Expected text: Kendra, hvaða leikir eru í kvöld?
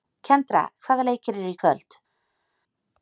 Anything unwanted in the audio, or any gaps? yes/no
no